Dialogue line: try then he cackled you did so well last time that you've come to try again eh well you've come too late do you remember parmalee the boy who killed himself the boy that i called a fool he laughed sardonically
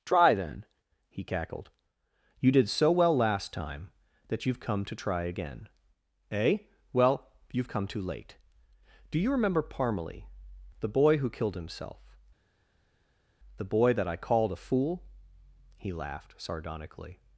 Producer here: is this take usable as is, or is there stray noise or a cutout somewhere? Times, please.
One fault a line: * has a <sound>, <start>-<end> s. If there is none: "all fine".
all fine